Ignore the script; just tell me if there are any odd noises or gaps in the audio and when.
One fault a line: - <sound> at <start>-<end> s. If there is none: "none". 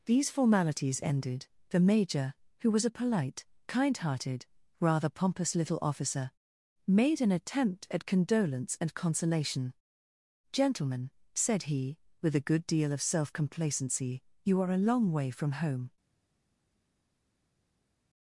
none